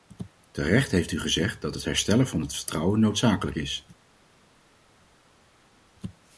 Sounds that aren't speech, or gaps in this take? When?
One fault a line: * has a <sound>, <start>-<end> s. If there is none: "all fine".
all fine